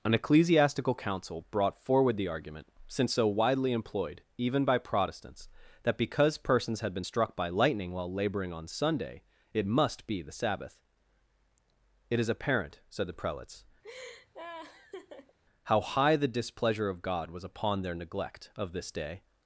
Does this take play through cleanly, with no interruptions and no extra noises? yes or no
no